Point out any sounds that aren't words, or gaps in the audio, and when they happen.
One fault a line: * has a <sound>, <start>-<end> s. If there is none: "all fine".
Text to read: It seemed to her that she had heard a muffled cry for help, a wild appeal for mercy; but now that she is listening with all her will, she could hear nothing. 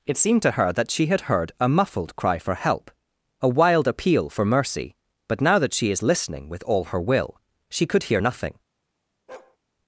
* has a bark, 9.3-9.6 s